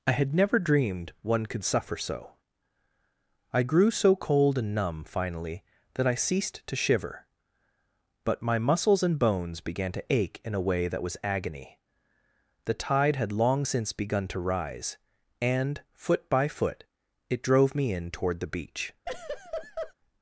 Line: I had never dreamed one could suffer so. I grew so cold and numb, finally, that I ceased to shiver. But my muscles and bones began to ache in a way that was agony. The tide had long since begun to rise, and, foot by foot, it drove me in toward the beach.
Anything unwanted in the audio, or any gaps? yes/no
yes